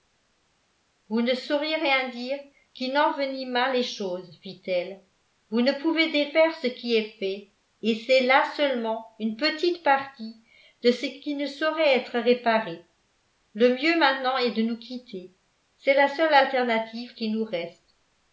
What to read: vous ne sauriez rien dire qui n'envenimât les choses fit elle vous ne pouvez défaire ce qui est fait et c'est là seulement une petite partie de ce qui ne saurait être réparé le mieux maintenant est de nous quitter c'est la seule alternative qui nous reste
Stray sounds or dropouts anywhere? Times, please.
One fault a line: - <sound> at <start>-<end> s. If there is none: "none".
none